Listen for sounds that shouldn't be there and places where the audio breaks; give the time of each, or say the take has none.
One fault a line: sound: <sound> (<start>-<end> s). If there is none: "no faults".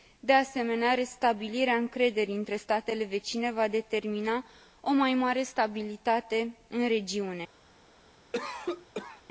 sound: cough (8.3-9.2 s)